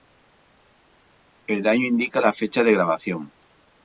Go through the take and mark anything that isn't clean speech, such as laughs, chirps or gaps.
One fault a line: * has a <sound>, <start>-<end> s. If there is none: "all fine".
all fine